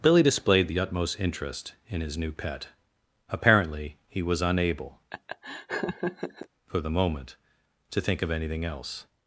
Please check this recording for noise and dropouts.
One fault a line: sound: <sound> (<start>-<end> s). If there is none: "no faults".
sound: laugh (5.1-6.5 s)